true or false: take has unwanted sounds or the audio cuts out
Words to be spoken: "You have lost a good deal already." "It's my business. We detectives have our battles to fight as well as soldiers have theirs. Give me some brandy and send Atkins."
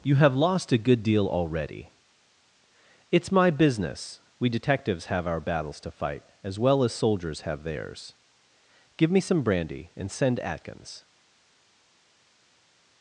false